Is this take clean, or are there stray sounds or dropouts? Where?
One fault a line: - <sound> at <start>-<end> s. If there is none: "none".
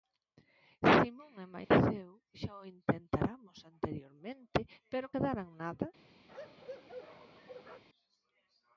- dropout at 1.6-1.7 s
- bark at 6.3-7.8 s